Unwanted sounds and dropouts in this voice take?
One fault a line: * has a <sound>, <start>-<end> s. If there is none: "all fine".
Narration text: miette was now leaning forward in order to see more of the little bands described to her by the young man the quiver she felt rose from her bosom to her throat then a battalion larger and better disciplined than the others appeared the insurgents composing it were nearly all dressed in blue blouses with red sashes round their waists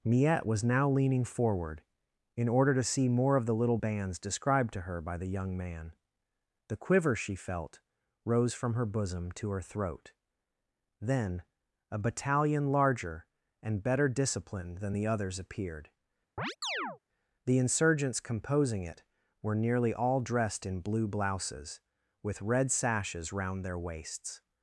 * has a chirp, 16.4-17.0 s